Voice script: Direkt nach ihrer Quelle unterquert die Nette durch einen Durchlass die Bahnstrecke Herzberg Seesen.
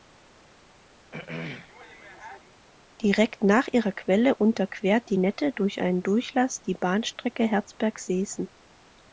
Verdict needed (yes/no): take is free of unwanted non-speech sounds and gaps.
no